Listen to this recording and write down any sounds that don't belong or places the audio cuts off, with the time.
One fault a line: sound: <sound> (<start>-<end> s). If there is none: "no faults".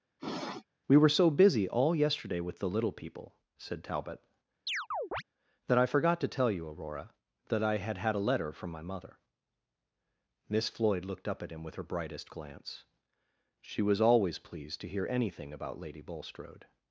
sound: sniff (0.2-0.7 s)
sound: chirp (4.7-5.2 s)